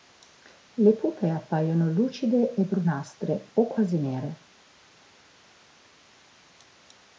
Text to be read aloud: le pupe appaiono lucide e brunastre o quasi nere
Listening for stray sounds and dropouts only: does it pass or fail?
pass